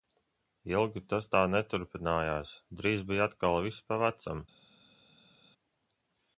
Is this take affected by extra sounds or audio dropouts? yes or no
no